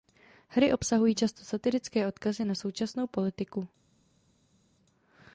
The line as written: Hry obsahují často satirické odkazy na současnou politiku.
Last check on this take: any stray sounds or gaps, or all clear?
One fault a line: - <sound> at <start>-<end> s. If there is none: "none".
none